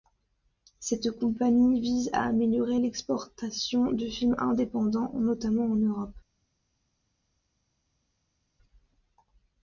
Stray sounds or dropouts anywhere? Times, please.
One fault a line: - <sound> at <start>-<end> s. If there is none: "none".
none